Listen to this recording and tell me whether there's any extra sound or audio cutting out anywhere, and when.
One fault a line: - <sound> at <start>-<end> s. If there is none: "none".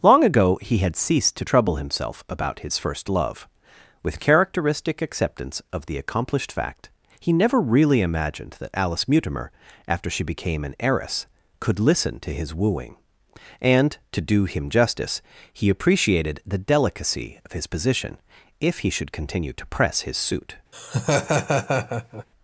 - laugh at 20.7-22.3 s